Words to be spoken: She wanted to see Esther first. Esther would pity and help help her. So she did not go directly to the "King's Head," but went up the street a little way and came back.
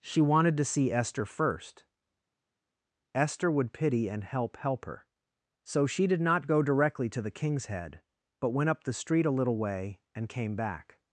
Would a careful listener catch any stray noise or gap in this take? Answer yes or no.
no